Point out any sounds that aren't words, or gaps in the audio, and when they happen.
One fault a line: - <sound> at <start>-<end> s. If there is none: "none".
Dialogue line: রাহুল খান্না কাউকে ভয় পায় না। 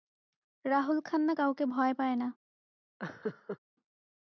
- laugh at 3.0-3.6 s